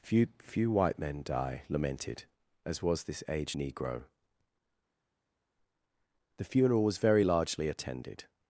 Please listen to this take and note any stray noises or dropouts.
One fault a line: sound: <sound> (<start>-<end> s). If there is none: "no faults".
no faults